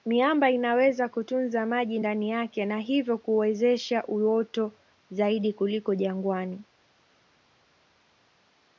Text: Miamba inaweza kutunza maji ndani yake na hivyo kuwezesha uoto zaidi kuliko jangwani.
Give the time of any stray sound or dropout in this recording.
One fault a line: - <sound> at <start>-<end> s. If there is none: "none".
none